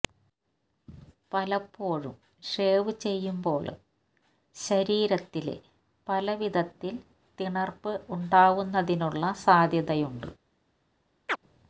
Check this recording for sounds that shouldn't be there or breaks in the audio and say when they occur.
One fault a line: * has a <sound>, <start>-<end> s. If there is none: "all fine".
* has a chirp, 11.3-11.4 s